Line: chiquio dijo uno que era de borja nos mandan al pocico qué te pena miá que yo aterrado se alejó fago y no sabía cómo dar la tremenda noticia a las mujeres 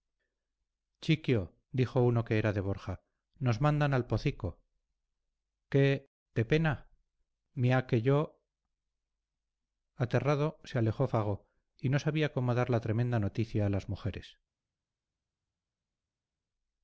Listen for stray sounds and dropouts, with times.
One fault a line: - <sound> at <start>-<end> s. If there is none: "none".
none